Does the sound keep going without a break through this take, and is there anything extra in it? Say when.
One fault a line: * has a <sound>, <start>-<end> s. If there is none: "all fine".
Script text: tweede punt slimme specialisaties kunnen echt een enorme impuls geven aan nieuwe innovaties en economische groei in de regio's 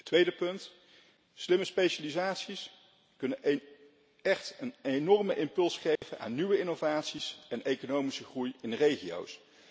* has a dropout, 6.0-6.0 s